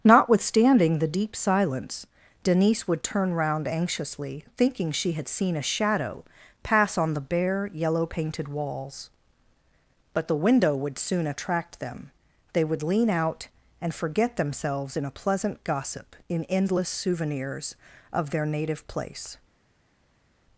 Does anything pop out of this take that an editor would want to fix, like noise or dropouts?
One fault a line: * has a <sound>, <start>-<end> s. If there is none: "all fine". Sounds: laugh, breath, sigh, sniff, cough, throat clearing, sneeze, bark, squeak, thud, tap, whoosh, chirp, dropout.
all fine